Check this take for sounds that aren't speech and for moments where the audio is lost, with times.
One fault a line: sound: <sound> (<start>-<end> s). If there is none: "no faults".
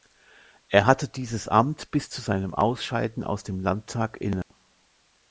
sound: dropout (4.4-4.5 s)